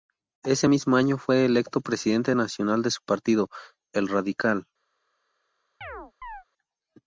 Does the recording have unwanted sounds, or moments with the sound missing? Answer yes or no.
yes